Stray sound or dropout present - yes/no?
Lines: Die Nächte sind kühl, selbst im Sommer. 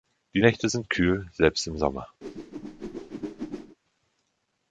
yes